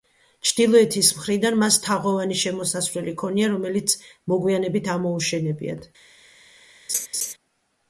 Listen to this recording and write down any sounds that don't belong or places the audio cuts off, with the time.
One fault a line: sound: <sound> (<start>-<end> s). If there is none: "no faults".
sound: laugh (6.9-7.3 s)